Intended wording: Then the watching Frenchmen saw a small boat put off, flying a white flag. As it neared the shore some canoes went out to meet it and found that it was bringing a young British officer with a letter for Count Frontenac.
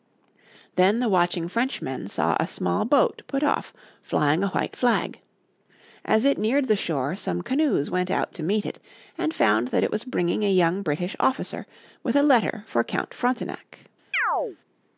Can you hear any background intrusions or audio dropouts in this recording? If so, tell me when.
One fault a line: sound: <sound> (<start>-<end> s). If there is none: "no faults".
sound: chirp (14.1-14.6 s)